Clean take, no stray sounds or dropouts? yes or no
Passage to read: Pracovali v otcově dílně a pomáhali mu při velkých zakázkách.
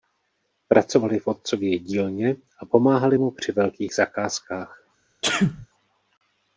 no